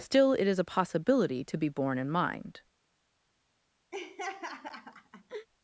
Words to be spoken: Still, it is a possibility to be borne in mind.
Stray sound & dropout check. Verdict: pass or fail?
fail